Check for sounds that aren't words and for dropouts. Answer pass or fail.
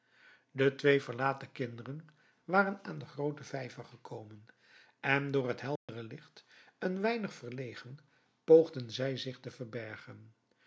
fail